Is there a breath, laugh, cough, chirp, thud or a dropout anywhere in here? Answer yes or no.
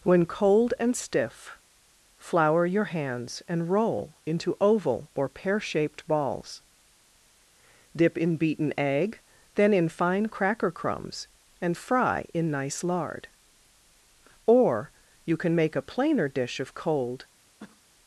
yes